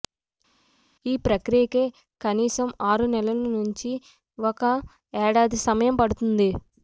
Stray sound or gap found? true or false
false